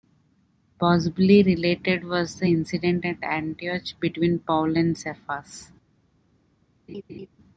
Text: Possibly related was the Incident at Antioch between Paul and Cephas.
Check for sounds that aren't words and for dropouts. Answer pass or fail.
fail